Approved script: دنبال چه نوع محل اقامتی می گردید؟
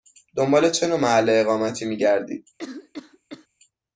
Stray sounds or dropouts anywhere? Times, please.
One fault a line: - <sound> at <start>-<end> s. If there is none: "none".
- cough at 2.6-3.5 s